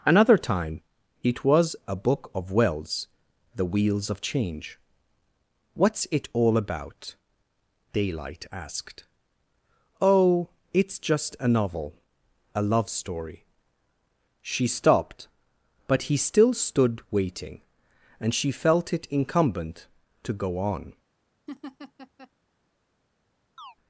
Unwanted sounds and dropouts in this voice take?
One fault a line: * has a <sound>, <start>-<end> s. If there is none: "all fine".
* has a laugh, 21.5-22.3 s
* has a chirp, 23.6-23.8 s